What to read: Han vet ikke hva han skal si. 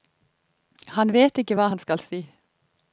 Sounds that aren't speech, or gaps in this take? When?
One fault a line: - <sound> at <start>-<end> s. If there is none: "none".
none